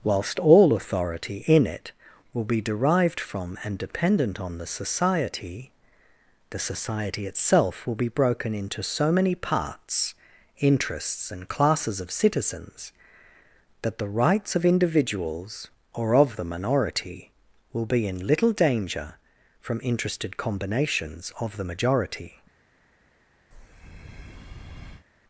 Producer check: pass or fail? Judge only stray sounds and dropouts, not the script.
fail